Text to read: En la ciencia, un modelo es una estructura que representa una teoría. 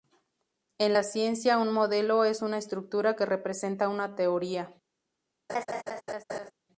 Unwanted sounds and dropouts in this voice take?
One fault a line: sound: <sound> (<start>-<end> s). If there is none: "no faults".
sound: laugh (5.5-6.5 s)